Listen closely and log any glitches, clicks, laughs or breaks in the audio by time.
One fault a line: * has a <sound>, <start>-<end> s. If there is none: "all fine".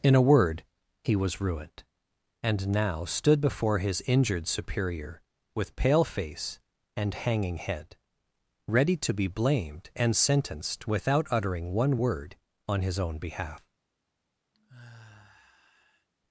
* has a sigh, 14.5-16.1 s